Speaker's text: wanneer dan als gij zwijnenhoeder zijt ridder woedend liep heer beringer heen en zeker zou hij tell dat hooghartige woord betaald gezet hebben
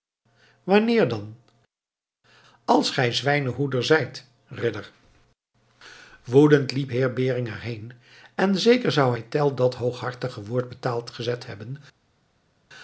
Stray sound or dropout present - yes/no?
no